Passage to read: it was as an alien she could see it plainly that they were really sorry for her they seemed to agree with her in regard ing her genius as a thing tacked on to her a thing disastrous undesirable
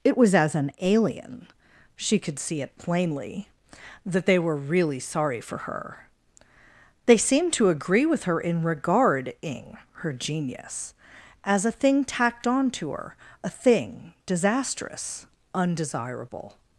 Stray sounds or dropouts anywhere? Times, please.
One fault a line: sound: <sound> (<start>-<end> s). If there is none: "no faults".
no faults